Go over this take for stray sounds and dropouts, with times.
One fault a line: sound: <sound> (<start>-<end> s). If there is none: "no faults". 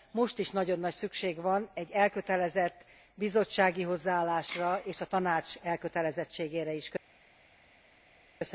no faults